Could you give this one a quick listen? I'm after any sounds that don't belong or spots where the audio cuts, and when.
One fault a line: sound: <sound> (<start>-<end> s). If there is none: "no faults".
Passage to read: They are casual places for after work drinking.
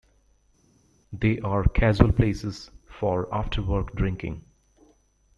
no faults